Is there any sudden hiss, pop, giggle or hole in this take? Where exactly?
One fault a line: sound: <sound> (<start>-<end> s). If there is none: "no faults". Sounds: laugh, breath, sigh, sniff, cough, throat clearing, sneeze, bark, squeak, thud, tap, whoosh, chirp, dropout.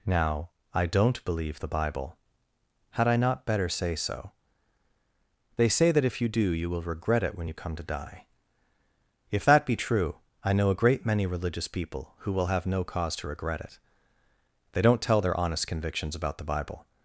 no faults